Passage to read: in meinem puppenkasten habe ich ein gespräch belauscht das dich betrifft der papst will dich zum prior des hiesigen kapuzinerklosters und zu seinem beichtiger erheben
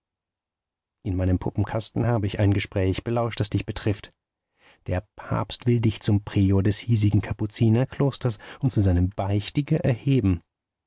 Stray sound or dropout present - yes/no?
no